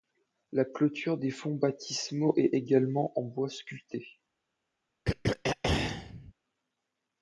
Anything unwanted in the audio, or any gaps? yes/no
yes